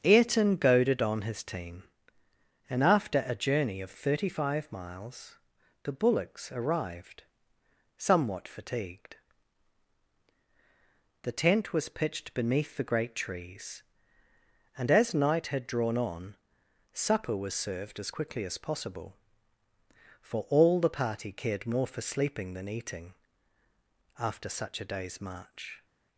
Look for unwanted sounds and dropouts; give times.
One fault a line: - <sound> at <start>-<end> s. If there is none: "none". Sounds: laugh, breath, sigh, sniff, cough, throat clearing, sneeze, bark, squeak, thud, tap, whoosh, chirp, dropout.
none